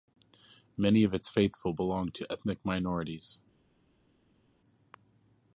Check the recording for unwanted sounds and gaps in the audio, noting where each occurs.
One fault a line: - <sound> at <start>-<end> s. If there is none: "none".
none